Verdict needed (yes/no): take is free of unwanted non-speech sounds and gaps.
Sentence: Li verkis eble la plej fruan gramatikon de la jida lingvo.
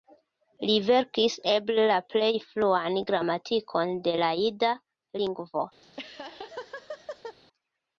no